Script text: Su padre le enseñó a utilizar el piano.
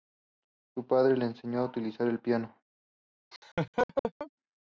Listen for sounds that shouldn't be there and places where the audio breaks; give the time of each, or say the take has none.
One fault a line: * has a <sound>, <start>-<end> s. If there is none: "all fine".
* has a laugh, 3.3-4.3 s